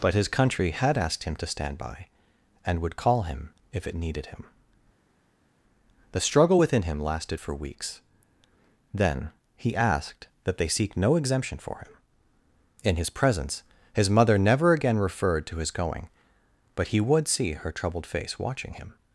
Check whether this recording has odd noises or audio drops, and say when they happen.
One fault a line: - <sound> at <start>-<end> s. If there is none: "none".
none